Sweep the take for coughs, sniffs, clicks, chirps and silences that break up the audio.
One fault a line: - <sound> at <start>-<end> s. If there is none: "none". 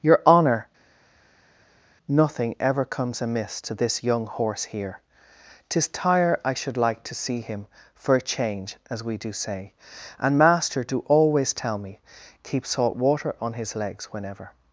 none